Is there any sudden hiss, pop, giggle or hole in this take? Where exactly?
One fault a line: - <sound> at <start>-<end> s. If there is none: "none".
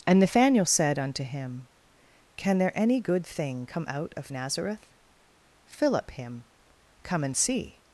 none